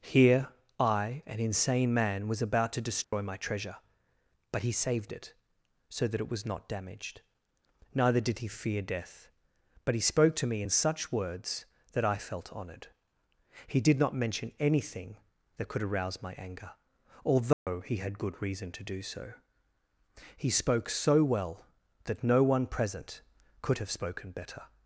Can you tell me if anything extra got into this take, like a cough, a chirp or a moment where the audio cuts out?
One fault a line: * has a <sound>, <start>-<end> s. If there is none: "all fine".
* has a dropout, 3.0-3.1 s
* has a dropout, 17.5-17.7 s